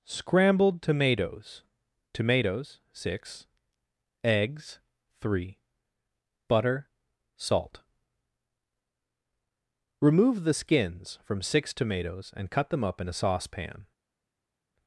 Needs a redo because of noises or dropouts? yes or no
no